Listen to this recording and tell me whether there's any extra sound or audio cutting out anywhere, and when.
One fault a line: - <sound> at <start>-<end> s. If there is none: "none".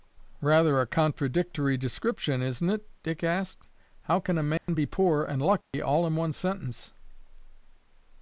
- dropout at 4.6-4.7 s
- dropout at 5.6-5.7 s